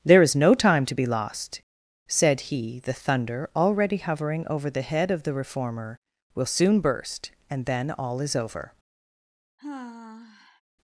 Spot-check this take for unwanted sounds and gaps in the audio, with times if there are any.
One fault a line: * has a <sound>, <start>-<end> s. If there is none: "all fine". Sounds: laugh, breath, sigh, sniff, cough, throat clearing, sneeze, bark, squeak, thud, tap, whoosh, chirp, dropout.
* has a sigh, 9.6-10.6 s